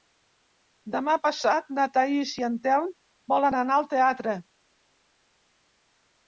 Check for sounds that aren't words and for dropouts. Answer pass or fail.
pass